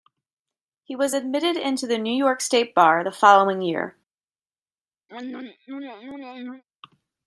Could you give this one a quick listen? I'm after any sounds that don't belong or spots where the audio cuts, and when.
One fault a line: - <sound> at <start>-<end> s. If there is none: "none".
- throat clearing at 5.1-6.6 s